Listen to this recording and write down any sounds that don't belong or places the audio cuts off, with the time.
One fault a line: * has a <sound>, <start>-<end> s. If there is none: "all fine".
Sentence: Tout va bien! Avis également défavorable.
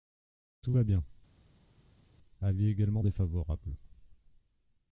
all fine